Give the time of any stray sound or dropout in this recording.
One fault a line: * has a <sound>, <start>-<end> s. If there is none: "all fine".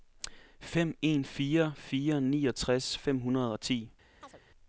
* has a chirp, 4.2-4.4 s